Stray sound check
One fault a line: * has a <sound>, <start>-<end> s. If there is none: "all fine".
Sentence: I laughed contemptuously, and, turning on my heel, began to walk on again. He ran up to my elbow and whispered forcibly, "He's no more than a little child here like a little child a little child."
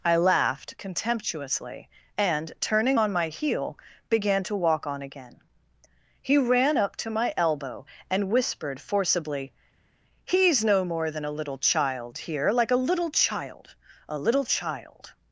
all fine